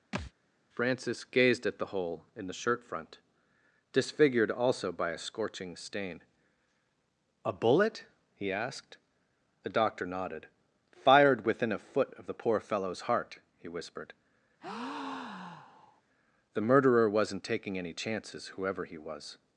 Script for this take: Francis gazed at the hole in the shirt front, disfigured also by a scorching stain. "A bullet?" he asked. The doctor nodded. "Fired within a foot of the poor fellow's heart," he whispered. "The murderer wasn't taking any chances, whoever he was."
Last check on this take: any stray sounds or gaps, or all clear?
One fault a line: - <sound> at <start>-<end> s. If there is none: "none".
- thud at 0.1-0.3 s
- breath at 14.6-16.0 s